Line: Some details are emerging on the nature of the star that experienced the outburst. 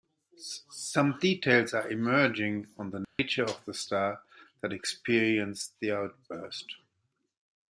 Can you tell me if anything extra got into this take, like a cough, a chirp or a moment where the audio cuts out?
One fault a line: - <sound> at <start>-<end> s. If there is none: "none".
- dropout at 3.0-3.2 s